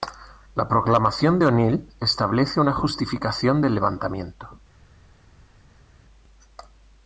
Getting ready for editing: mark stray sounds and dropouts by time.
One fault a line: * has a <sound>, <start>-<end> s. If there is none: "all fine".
all fine